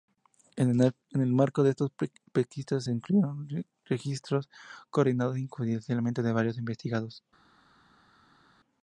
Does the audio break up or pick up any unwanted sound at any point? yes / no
no